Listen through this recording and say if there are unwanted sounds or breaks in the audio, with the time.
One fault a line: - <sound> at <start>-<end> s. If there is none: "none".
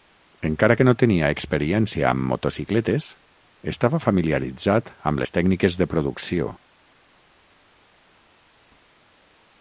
none